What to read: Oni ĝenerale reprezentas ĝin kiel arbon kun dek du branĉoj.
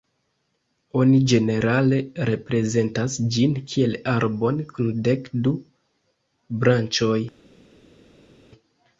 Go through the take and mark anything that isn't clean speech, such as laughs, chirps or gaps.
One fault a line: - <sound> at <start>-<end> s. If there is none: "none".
none